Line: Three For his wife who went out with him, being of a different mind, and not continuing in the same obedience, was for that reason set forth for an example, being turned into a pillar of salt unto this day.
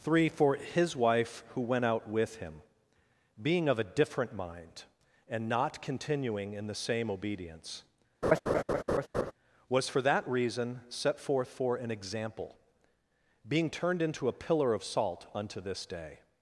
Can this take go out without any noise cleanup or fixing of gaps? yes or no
no